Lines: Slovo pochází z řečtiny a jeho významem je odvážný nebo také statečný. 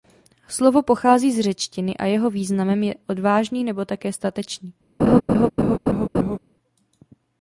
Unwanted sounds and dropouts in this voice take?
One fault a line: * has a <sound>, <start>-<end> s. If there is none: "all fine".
* has a laugh, 5.0-6.4 s